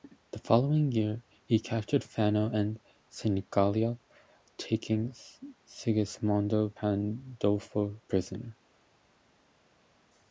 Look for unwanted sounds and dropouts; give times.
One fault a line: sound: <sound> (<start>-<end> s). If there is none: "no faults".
no faults